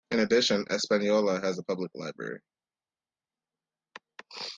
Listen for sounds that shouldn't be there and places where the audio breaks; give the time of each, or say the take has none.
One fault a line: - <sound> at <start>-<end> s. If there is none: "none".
none